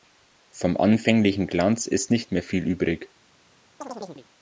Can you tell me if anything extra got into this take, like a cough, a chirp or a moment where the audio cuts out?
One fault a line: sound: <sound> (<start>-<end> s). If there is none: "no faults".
sound: chirp (3.8-4.3 s)